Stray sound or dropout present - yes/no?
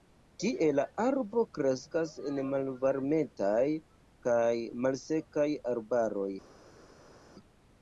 no